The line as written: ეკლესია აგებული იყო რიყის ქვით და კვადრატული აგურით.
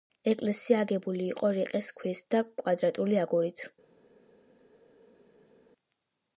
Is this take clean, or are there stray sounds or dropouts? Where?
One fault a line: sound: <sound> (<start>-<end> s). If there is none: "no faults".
no faults